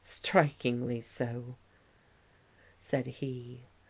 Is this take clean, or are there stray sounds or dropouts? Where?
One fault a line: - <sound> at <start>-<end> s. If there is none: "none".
none